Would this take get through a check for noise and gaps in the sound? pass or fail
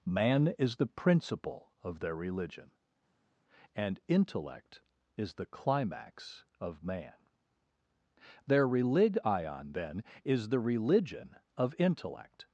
pass